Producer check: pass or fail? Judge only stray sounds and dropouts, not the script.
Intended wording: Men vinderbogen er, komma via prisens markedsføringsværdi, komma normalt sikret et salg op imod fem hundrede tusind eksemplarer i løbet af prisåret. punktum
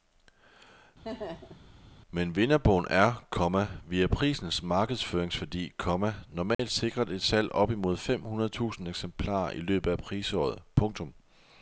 fail